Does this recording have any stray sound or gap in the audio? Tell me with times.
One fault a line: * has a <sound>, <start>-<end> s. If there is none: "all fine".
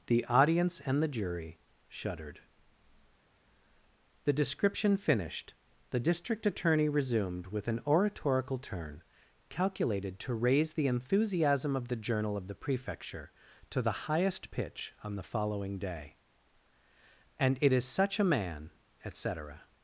all fine